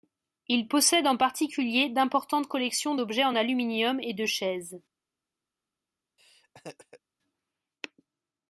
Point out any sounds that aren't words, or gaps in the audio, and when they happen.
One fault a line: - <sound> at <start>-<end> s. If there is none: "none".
- laugh at 6.2-7.0 s